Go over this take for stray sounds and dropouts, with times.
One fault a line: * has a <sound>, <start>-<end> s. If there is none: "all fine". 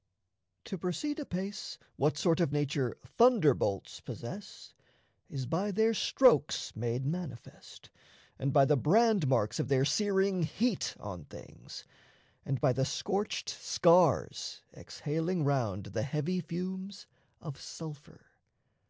all fine